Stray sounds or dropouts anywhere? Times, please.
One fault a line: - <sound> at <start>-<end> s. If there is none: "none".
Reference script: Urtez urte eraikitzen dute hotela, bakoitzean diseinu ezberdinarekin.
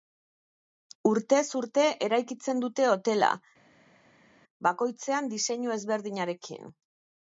none